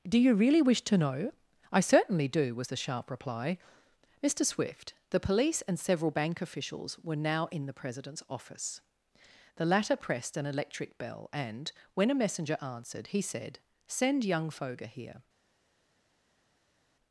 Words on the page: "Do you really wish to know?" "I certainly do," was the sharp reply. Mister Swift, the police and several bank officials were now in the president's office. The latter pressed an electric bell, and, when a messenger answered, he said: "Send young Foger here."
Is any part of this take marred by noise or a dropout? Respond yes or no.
no